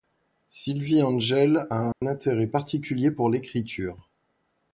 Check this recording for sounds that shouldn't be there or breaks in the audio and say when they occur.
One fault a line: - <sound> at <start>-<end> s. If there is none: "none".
- dropout at 1.9-2.0 s